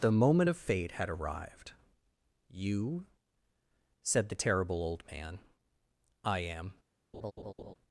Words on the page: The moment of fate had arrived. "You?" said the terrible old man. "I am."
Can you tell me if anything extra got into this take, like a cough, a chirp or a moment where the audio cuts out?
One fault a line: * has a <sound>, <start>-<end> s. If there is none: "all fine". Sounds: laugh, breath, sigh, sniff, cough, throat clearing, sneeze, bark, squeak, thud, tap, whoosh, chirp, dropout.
* has a laugh, 7.1-7.7 s